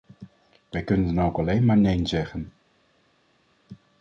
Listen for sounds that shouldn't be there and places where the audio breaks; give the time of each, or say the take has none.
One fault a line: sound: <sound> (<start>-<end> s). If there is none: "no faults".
no faults